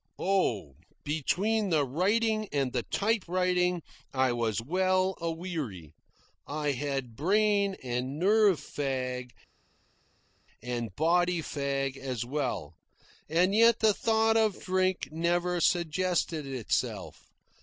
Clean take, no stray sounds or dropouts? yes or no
yes